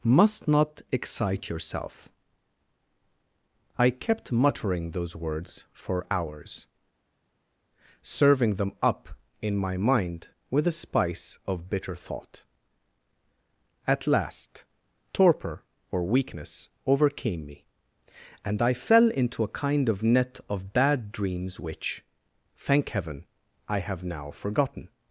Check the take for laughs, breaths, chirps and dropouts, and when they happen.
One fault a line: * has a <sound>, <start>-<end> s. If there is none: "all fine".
all fine